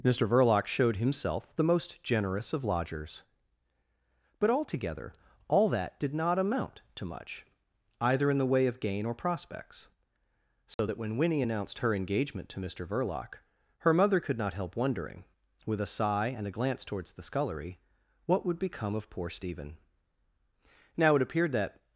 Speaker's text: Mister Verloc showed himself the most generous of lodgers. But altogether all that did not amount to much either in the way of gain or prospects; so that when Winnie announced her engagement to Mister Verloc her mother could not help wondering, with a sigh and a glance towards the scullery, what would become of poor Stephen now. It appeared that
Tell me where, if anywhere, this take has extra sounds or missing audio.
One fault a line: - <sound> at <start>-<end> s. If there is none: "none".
- dropout at 10.7-10.8 s